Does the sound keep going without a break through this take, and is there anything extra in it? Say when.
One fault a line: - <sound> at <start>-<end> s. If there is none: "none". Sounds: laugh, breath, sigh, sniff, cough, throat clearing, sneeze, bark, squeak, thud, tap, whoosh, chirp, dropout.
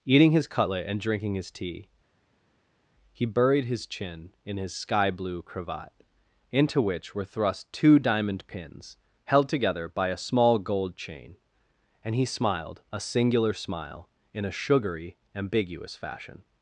none